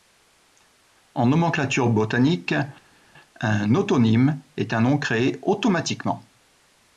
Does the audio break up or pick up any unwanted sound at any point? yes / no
no